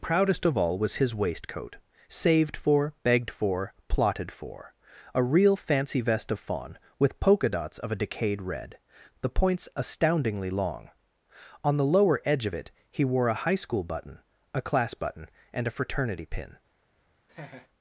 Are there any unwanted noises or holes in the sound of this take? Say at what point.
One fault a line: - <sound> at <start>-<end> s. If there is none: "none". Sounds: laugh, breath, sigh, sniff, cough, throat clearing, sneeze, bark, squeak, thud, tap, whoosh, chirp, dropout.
- laugh at 17.3-17.7 s